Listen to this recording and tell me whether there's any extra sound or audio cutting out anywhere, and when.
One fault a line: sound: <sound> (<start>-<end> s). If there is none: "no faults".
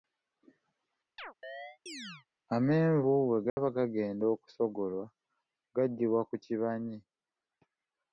sound: chirp (1.2-2.3 s)
sound: dropout (3.5-3.6 s)